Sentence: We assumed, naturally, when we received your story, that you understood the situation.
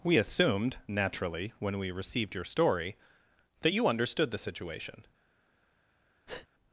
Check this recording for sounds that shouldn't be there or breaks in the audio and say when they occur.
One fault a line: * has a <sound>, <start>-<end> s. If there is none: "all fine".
* has a breath, 6.3-6.5 s